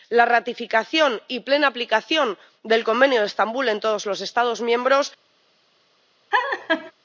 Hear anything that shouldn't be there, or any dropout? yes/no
yes